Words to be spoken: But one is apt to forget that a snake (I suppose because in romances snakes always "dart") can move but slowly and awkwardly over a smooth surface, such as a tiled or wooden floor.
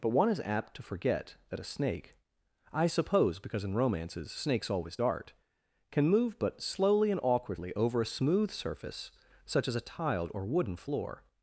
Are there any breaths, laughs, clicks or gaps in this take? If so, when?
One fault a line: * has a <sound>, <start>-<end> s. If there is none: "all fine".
all fine